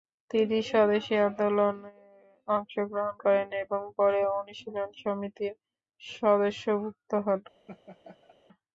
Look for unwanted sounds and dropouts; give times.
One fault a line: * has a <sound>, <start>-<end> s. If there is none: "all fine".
* has a laugh, 7.7-8.4 s